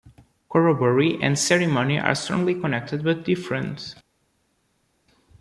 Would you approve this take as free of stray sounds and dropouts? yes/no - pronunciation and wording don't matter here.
yes